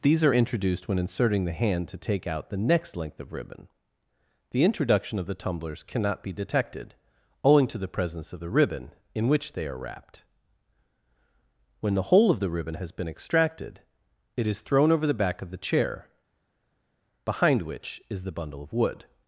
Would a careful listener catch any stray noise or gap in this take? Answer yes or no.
no